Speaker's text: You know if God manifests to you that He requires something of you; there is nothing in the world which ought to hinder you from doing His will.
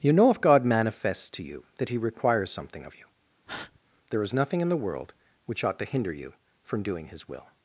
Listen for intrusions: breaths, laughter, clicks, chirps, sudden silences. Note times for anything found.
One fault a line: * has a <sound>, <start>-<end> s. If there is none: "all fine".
* has a breath, 3.5-3.8 s